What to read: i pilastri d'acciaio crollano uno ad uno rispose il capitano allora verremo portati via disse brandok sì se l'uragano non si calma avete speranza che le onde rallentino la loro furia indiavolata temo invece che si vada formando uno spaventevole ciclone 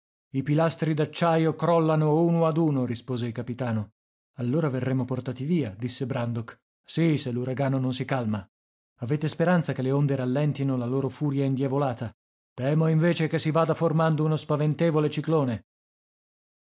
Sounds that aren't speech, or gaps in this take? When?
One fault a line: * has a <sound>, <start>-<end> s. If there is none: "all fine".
all fine